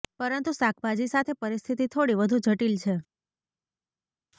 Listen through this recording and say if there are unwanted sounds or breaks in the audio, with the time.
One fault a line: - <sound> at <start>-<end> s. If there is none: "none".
none